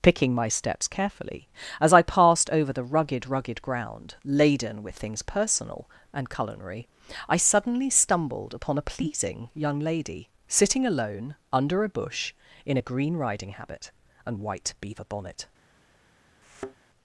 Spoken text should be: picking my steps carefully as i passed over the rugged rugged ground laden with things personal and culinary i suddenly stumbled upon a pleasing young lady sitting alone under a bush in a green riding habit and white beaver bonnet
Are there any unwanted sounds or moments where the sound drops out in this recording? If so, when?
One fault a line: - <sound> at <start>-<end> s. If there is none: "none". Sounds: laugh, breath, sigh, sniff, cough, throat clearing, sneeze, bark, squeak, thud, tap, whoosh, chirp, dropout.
- thud at 16.4-16.8 s